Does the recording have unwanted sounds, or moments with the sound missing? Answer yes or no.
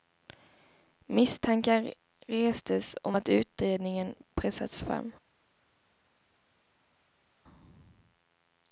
no